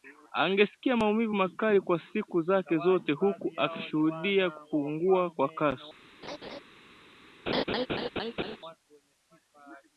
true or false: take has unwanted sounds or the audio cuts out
true